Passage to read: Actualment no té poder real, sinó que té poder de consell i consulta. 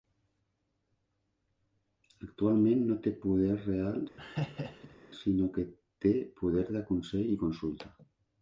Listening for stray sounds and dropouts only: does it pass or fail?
fail